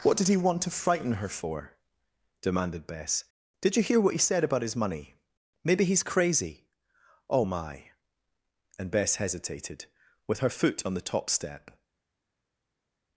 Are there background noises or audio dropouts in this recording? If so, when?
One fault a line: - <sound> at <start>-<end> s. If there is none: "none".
none